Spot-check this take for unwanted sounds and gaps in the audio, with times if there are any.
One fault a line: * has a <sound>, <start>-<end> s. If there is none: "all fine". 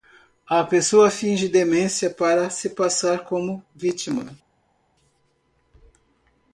all fine